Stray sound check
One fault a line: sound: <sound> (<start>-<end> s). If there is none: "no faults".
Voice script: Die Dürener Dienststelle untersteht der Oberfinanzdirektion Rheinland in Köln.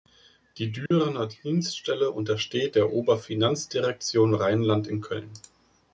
sound: dropout (0.9-0.9 s)